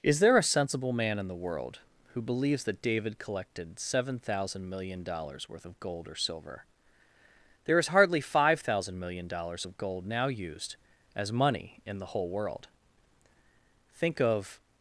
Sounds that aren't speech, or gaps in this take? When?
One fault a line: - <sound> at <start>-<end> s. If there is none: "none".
none